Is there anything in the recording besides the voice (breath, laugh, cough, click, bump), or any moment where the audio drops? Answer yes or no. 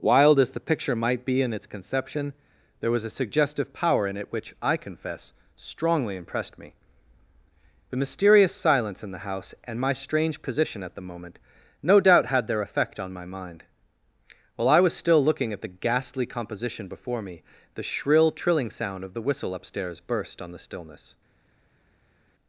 no